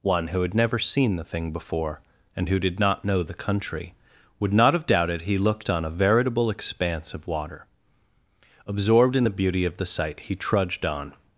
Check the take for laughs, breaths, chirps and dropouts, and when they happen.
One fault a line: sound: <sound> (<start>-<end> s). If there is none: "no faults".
no faults